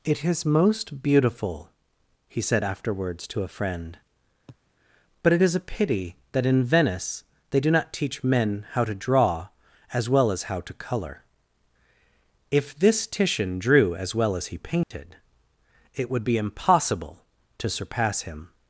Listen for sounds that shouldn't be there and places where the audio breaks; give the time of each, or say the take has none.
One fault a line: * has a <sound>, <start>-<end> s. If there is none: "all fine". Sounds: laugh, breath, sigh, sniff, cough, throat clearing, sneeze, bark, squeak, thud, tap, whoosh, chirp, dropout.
* has a sniff, 4.5-4.6 s
* has a dropout, 14.8-14.9 s